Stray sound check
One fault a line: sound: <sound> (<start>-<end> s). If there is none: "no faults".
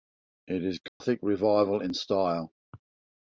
sound: dropout (0.9-1.0 s)